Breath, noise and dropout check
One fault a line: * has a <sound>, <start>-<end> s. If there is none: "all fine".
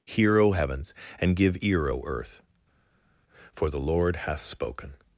all fine